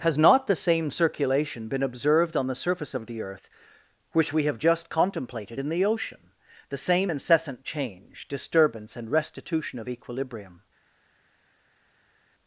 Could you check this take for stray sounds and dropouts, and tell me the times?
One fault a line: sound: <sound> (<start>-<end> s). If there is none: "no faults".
no faults